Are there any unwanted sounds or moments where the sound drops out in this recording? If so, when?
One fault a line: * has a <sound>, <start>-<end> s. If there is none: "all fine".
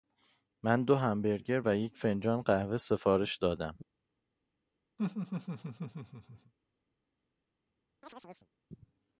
* has a laugh, 5.0-6.5 s
* has a chirp, 8.0-8.5 s